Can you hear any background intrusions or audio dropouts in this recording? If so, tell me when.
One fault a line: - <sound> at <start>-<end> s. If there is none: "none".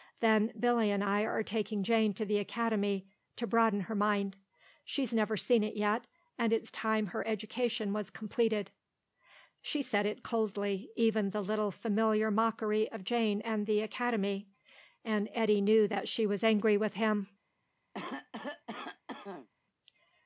- cough at 17.9-19.5 s